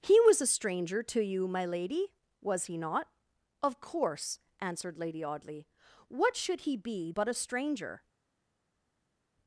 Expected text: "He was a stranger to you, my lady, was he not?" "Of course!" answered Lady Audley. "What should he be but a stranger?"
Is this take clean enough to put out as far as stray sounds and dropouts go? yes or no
yes